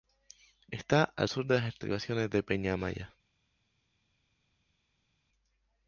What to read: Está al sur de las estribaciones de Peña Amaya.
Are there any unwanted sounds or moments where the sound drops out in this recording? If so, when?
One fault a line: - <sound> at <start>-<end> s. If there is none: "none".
none